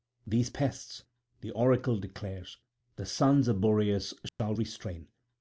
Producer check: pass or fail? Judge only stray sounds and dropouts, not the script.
fail